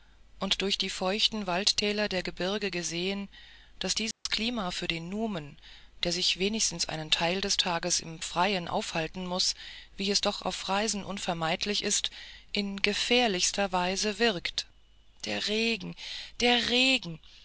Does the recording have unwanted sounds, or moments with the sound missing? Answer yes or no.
yes